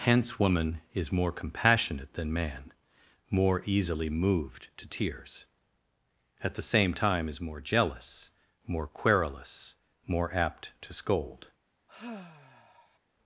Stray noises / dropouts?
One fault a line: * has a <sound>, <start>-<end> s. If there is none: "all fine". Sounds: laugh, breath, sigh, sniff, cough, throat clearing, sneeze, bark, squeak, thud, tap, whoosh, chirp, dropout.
* has a sigh, 11.9-13.0 s